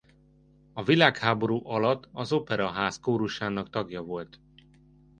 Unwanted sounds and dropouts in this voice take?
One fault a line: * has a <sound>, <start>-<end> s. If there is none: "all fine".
all fine